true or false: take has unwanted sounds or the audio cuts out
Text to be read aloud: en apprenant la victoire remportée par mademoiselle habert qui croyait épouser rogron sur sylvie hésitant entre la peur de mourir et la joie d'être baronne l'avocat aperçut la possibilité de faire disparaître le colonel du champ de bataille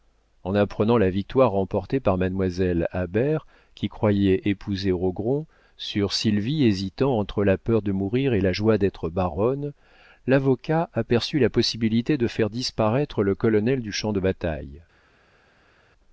false